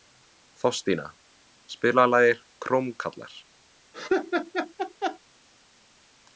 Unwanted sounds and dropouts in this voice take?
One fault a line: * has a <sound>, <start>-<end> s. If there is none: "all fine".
* has a laugh, 3.9-5.2 s